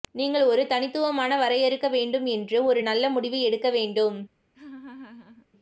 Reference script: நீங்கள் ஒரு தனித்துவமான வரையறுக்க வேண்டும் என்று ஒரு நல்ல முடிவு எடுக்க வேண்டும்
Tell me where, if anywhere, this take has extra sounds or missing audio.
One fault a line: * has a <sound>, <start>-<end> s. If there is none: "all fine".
* has a laugh, 4.5-5.5 s